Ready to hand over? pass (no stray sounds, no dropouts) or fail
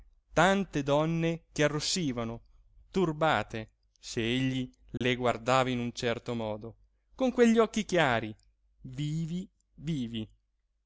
fail